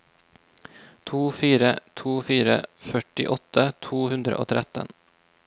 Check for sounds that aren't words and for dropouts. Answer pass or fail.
pass